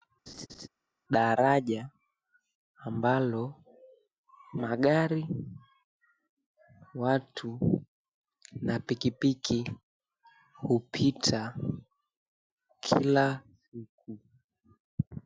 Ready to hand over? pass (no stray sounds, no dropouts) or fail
fail